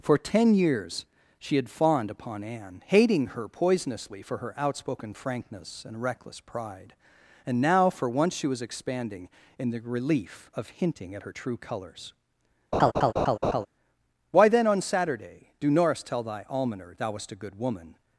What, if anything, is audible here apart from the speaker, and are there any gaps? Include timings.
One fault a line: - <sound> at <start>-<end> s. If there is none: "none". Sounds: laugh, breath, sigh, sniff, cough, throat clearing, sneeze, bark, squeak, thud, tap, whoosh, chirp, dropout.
- laugh at 12.7-13.7 s